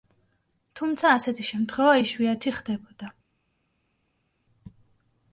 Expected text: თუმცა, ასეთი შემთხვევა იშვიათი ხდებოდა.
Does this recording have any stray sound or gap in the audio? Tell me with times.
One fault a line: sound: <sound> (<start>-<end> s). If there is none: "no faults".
no faults